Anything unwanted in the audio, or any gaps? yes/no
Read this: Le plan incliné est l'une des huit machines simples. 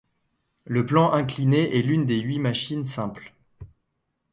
no